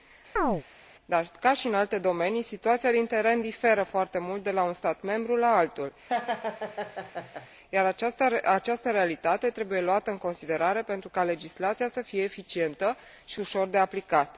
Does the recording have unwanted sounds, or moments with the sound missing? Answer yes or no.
yes